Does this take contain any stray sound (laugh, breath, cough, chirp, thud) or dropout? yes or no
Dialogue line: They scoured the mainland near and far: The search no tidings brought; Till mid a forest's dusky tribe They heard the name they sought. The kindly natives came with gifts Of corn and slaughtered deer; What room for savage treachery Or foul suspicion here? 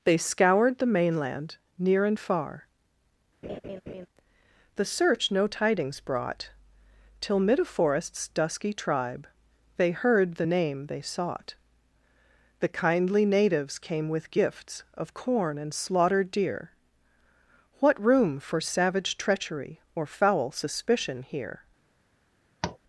yes